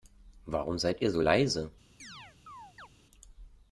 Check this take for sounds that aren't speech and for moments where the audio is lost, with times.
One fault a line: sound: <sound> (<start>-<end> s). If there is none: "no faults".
sound: chirp (2.0-2.9 s)